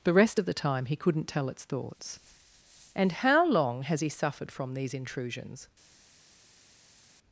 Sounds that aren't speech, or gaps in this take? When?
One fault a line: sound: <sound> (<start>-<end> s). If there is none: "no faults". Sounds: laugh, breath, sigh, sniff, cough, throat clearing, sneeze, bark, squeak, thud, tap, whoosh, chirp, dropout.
no faults